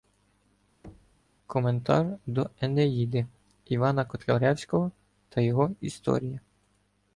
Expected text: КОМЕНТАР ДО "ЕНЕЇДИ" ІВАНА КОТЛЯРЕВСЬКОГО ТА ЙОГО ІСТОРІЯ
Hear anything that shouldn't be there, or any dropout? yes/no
yes